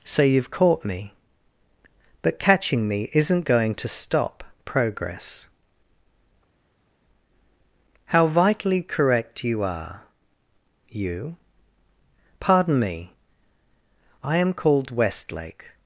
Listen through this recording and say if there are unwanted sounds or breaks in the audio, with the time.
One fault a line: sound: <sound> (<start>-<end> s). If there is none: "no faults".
no faults